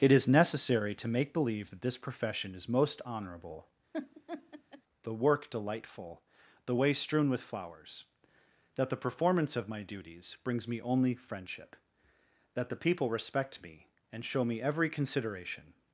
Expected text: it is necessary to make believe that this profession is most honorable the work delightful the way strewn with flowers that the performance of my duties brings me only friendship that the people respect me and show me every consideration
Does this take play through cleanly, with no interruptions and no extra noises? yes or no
no